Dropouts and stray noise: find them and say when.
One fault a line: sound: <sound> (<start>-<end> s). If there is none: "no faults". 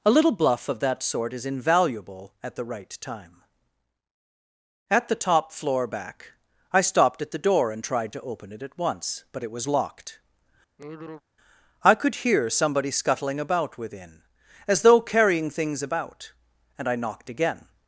sound: sigh (10.8-11.2 s)